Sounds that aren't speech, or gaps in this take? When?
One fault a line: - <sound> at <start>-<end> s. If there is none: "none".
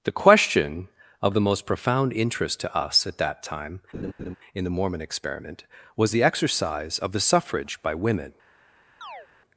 - laugh at 3.9-4.4 s
- chirp at 9.0-9.3 s